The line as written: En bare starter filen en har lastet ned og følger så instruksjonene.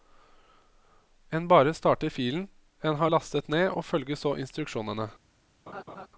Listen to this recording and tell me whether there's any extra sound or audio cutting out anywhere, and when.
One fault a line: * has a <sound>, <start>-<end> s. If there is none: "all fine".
* has a laugh, 5.7-6.1 s